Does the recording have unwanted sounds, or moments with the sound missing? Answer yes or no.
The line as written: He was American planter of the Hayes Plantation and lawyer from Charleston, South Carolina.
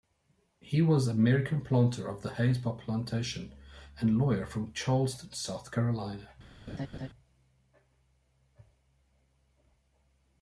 yes